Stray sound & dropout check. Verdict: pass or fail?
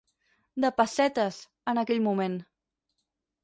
pass